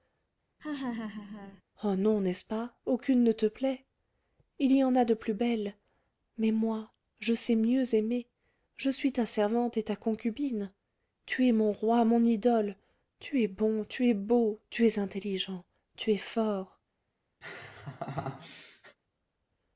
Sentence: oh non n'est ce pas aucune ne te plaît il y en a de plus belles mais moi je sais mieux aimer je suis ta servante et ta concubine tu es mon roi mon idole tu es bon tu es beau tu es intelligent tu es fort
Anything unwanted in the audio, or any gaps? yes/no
yes